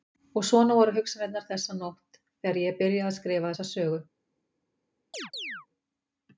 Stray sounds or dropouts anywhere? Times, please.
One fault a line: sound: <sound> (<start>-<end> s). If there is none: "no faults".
sound: chirp (5.1-5.7 s)